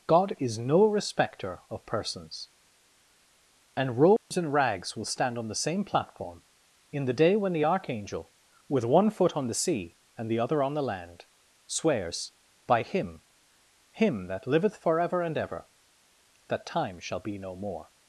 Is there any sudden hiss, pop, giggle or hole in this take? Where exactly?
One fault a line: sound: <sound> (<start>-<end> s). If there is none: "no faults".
sound: dropout (4.2-4.3 s)